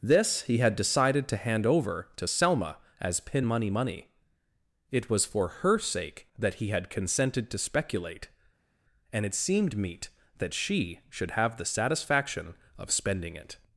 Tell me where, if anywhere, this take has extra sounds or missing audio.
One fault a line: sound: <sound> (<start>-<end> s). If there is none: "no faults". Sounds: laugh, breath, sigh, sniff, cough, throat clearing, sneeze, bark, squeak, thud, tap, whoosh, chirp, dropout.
no faults